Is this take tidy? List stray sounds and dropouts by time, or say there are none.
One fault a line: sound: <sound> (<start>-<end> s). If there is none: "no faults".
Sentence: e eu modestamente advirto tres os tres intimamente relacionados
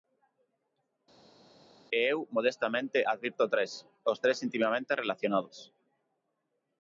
no faults